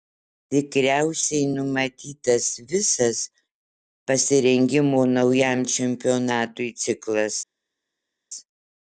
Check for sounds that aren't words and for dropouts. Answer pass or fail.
pass